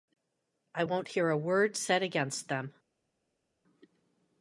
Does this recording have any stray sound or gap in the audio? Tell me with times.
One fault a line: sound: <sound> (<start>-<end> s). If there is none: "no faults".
no faults